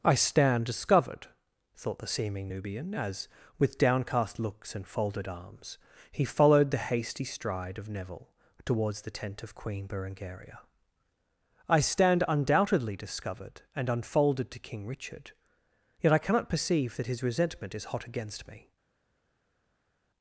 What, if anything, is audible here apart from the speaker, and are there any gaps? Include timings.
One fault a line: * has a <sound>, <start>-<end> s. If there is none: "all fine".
all fine